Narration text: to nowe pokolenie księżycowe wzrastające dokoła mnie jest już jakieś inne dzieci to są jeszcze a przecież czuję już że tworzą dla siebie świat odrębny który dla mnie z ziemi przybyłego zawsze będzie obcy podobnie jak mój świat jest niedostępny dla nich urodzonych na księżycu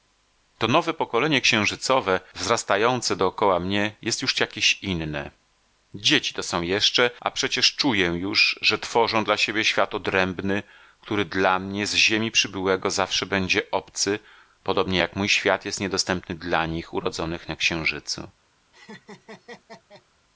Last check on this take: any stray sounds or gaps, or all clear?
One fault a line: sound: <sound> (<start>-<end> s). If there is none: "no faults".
sound: laugh (18.7-20.1 s)